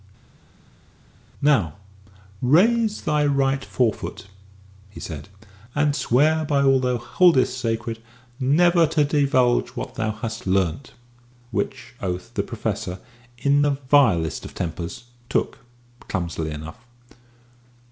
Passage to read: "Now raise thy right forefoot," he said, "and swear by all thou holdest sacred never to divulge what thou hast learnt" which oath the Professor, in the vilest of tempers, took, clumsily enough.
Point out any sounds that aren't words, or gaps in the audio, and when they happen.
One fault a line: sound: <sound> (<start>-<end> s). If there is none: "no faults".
no faults